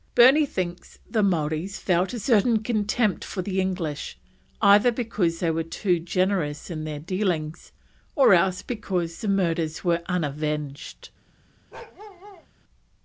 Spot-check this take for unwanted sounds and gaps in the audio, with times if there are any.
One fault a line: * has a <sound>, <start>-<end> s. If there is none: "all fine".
* has a bark, 11.7-12.5 s